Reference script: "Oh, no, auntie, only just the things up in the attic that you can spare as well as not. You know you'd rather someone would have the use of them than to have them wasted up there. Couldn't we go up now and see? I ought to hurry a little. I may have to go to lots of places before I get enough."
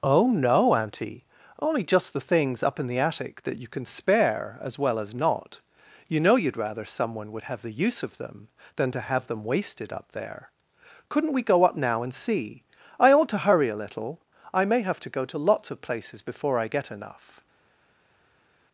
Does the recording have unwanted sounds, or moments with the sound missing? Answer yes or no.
no